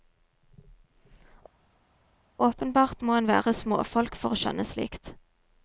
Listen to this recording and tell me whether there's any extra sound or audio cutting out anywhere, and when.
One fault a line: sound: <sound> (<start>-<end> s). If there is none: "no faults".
no faults